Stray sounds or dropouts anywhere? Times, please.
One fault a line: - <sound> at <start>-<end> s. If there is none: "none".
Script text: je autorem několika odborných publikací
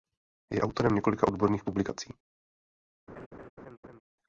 - laugh at 3.1-4.0 s